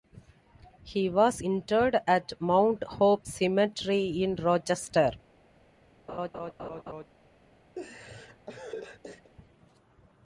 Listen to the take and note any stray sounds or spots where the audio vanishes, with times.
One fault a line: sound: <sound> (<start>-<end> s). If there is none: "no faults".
sound: laugh (6.1-7.1 s)
sound: laugh (7.8-9.3 s)